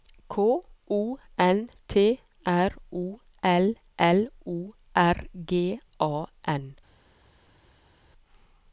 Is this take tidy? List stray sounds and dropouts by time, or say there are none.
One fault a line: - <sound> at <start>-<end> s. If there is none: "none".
none